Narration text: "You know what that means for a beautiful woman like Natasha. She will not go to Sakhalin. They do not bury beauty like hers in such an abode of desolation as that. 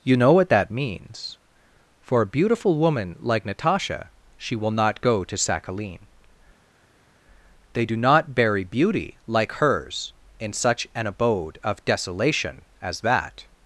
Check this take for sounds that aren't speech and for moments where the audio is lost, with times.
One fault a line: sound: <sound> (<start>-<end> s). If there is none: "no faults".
no faults